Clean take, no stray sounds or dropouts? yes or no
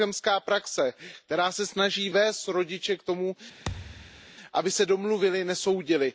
no